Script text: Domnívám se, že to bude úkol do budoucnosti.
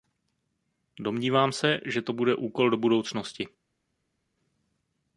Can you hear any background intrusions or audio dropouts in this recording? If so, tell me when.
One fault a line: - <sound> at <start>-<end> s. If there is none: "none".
none